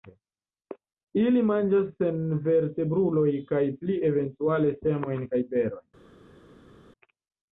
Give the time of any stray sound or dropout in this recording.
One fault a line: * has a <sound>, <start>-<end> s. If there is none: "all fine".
all fine